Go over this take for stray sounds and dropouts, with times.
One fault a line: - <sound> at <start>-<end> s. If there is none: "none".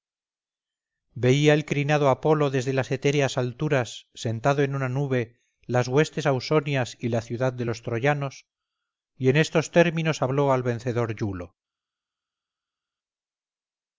none